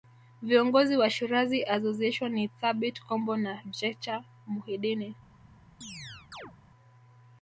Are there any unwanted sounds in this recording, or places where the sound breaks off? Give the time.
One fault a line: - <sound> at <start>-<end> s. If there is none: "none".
- chirp at 5.8-6.5 s